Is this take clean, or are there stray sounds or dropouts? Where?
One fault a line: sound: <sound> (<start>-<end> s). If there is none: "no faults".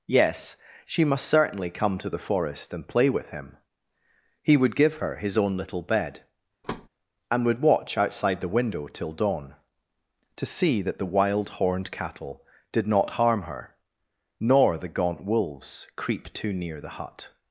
sound: thud (6.6-6.9 s)